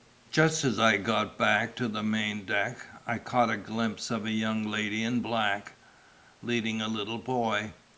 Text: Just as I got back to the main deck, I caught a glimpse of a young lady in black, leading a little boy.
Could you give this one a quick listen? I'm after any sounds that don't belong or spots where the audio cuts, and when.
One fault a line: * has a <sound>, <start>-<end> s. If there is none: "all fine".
all fine